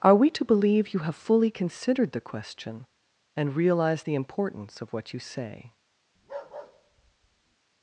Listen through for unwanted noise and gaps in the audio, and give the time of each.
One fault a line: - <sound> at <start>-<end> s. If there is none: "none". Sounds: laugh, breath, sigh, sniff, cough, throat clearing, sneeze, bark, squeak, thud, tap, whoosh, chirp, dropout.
- bark at 6.2-7.6 s